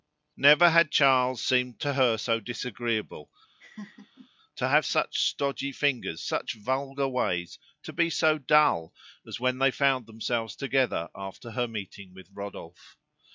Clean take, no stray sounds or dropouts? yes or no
no